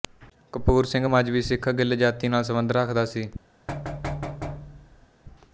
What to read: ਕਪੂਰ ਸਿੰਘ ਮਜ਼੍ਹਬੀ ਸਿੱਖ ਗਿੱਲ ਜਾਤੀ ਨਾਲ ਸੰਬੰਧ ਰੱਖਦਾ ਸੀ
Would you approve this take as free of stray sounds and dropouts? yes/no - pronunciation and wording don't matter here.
no